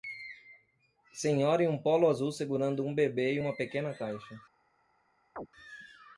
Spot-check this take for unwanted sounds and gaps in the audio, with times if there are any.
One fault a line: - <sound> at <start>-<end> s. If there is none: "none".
- chirp at 5.4-5.5 s